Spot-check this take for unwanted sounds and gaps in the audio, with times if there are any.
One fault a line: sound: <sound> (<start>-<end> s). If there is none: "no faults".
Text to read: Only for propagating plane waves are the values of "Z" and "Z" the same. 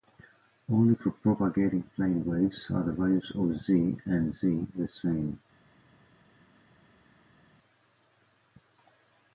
no faults